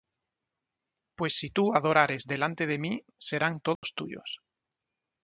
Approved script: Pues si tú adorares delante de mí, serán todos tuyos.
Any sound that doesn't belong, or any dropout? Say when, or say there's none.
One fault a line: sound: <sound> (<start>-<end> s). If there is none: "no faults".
sound: dropout (3.8-3.8 s)